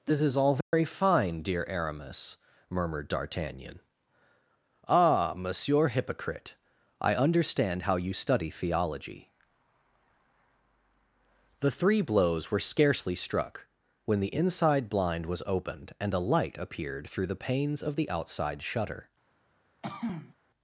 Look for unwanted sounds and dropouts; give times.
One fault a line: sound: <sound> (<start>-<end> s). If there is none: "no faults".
sound: dropout (0.6-0.7 s)
sound: throat clearing (19.8-20.3 s)